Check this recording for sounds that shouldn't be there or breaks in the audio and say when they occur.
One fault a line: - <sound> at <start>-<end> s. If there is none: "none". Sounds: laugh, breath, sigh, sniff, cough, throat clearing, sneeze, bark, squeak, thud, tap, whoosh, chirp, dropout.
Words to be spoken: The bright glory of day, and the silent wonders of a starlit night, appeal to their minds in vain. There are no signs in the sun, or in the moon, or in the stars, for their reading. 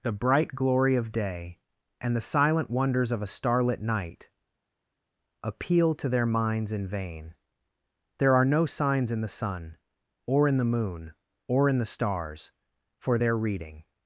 none